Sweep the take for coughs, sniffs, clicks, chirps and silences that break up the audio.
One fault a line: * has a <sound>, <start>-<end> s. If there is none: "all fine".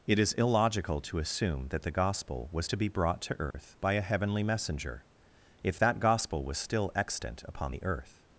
* has a dropout, 3.5-3.5 s